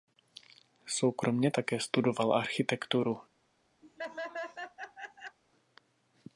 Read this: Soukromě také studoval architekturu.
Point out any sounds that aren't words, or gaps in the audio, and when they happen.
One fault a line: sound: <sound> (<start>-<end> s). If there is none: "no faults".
sound: laugh (3.8-5.4 s)